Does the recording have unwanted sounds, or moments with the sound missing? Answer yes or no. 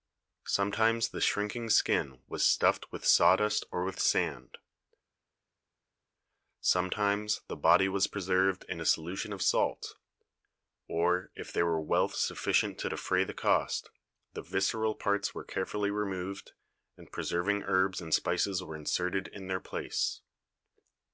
no